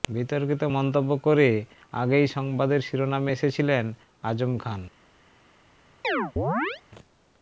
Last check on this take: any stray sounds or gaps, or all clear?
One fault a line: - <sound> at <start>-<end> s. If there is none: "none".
- chirp at 6.0-6.8 s